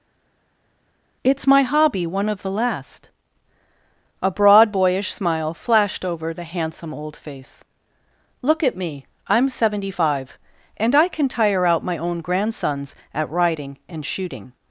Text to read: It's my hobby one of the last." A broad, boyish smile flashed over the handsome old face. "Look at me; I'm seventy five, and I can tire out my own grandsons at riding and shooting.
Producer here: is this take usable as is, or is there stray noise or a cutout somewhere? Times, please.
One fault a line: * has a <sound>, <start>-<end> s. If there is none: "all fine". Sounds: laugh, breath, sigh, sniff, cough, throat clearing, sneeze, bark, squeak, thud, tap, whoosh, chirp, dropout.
all fine